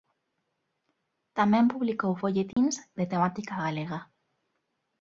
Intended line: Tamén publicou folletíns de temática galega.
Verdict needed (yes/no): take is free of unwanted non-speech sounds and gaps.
no